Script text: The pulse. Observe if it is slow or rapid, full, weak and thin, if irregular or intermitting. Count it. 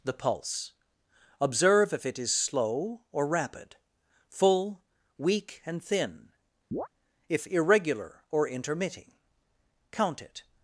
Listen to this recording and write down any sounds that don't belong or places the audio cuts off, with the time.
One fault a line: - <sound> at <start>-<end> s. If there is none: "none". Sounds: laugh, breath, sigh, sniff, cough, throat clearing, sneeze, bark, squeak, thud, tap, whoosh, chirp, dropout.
- chirp at 6.7-6.9 s